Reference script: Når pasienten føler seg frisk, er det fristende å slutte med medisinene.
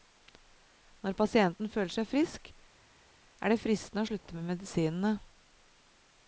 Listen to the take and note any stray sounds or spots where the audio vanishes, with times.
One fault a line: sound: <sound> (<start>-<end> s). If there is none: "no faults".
no faults